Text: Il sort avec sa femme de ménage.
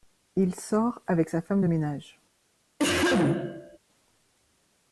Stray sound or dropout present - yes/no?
yes